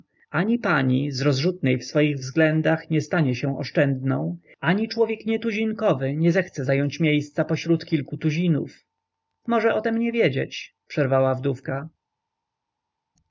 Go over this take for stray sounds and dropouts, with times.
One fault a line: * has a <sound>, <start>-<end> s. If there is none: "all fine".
all fine